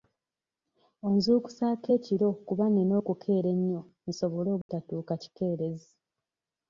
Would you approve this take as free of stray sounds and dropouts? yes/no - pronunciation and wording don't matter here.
no